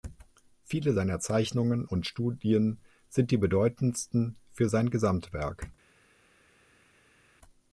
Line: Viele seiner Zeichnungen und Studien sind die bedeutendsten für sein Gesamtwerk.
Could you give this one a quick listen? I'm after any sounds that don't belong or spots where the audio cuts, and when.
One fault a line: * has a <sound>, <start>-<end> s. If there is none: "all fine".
all fine